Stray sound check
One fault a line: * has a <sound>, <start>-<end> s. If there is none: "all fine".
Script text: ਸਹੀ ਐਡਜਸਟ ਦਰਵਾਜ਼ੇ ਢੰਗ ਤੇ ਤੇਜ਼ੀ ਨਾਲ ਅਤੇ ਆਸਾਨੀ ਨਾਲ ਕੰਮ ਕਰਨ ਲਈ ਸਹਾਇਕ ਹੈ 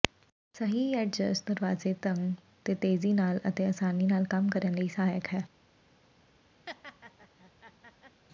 * has a laugh, 6.7-8.2 s